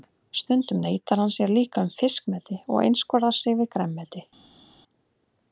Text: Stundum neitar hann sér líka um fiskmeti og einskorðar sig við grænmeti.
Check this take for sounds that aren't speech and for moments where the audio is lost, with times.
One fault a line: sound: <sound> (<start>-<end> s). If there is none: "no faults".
no faults